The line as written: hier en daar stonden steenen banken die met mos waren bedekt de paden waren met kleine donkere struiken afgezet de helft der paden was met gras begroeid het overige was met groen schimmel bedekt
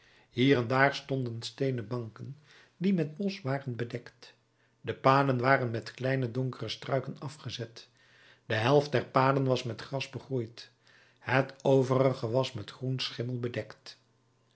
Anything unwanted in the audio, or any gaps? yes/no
no